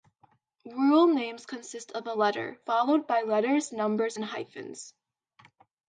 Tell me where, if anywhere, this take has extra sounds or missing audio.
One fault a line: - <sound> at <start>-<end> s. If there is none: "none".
none